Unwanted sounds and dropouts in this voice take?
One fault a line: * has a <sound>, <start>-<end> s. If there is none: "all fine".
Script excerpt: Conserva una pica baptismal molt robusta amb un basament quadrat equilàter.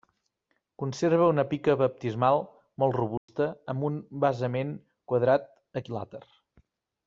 * has a dropout, 3.2-3.3 s